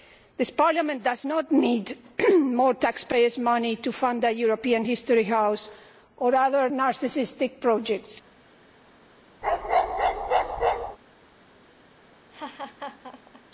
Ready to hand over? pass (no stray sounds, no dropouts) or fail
fail